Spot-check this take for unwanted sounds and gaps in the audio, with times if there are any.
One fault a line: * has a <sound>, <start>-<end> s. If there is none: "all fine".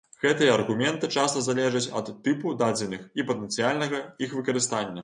all fine